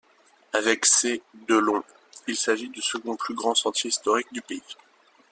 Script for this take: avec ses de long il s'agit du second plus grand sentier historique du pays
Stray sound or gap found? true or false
false